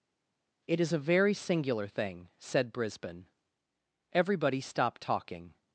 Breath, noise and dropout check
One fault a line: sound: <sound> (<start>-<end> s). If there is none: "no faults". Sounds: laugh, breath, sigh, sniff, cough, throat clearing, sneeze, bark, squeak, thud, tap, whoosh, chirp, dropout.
no faults